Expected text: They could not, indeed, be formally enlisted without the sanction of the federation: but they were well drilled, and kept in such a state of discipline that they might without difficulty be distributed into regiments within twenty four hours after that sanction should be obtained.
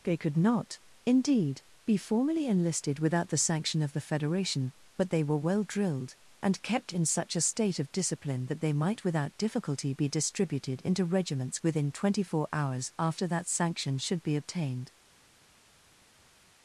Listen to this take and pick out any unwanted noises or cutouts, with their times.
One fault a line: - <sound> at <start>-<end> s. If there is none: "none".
none